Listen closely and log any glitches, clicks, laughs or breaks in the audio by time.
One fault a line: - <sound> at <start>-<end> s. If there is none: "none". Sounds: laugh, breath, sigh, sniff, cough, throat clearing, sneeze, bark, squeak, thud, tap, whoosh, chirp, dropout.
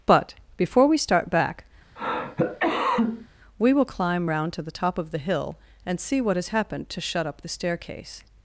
- cough at 2.0-3.3 s